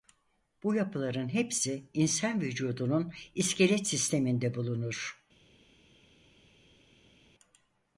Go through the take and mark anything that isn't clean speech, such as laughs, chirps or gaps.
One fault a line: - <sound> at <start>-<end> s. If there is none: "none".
none